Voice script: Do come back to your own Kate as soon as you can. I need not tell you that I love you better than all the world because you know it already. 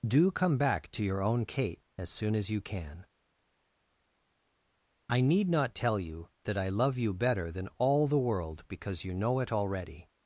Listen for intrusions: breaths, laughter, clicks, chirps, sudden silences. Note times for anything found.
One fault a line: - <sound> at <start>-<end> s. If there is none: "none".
none